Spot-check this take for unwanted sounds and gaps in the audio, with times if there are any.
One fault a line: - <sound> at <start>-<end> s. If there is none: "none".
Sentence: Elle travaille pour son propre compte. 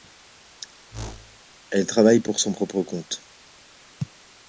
- whoosh at 0.9-1.4 s